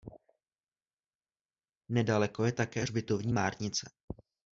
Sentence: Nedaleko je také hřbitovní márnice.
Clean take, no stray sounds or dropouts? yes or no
yes